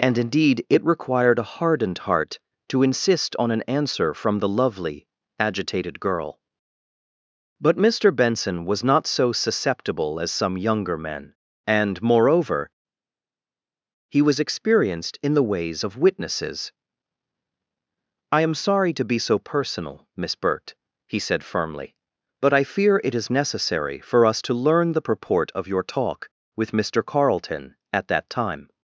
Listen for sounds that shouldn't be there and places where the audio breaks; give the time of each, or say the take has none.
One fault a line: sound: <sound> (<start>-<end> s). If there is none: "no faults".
no faults